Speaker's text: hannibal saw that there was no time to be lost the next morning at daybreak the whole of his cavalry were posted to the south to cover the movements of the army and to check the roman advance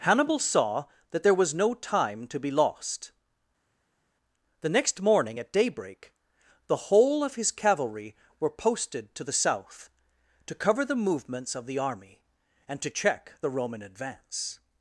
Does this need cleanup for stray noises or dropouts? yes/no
no